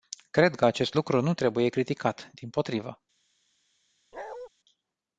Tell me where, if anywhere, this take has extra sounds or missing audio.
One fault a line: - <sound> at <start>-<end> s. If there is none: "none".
- bark at 4.1-4.5 s